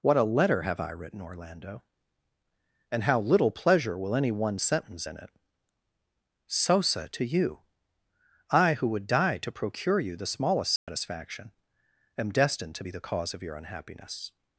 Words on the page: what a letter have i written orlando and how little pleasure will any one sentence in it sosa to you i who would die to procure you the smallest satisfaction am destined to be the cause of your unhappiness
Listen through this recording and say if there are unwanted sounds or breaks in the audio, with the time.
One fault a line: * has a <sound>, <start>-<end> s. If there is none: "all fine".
* has a dropout, 10.8-10.9 s